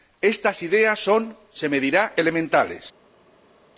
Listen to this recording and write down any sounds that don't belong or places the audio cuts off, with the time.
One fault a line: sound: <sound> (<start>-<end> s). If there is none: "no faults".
no faults